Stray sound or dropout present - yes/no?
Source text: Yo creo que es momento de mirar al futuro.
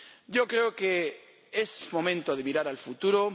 no